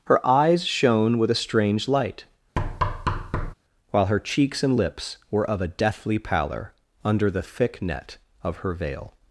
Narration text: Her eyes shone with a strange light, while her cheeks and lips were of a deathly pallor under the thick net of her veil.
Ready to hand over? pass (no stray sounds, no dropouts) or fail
fail